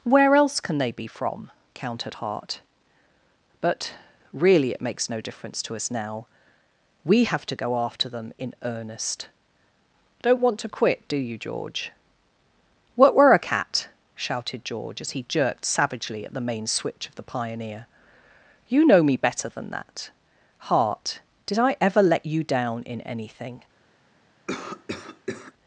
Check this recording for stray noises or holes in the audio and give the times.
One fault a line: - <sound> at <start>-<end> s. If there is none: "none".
- cough at 24.5-25.5 s